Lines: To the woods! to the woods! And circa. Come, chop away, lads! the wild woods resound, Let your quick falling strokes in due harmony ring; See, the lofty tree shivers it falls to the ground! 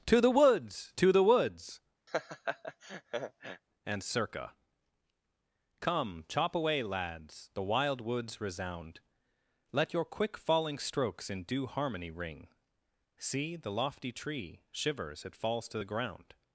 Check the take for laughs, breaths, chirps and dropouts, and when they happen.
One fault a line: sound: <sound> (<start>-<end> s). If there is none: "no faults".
sound: laugh (2.1-3.6 s)